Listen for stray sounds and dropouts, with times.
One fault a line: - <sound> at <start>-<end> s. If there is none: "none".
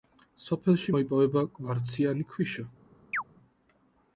- chirp at 3.1-3.2 s